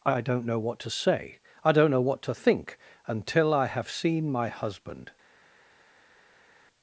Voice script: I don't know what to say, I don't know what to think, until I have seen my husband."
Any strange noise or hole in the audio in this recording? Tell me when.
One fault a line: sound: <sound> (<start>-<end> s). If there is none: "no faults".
no faults